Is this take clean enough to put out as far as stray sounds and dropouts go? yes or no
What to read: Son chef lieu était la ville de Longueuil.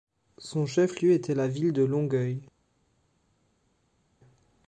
yes